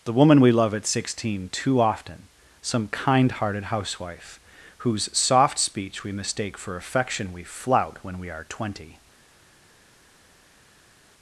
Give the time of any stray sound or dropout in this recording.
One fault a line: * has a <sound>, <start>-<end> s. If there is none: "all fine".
all fine